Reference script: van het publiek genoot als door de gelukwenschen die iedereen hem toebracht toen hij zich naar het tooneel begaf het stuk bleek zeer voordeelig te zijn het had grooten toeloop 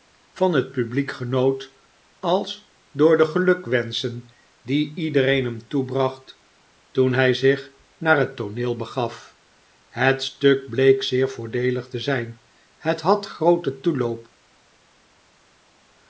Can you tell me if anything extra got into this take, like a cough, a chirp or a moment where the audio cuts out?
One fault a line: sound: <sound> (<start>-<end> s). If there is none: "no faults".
no faults